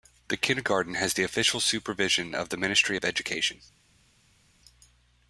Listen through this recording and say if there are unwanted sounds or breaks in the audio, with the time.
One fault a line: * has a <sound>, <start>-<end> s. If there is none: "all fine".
all fine